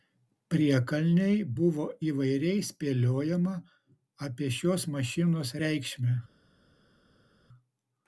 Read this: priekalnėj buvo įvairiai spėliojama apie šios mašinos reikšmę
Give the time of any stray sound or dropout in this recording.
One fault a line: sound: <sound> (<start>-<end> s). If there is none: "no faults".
no faults